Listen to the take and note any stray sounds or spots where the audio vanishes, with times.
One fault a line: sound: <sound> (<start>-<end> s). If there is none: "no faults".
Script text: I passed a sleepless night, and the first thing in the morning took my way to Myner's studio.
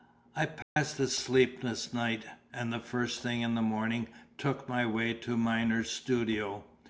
sound: dropout (0.6-0.8 s)